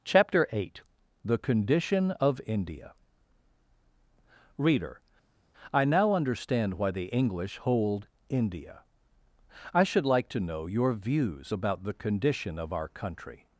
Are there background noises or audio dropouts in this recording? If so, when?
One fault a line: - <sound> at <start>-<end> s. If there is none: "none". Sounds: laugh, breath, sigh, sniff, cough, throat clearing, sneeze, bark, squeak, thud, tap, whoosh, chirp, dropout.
none